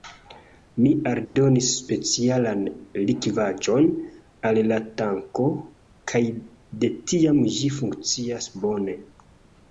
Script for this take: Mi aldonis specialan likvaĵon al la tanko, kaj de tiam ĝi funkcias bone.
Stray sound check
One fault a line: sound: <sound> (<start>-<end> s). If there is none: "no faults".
sound: dropout (1.2-1.4 s)